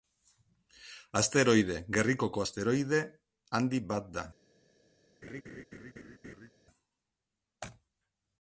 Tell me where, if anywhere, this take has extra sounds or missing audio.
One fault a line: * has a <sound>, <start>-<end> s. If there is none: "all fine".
* has a laugh, 5.2-6.5 s